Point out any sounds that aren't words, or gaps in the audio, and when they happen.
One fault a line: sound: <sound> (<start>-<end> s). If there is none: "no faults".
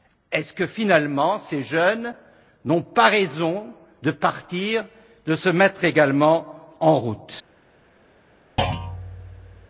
sound: thud (8.6-9.7 s)